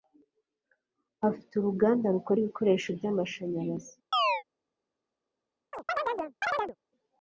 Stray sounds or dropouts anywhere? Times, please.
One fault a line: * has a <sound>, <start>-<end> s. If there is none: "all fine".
* has a chirp, 4.1-4.4 s
* has a chirp, 5.7-6.8 s